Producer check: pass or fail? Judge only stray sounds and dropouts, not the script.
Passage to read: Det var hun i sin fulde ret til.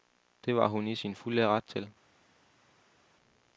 pass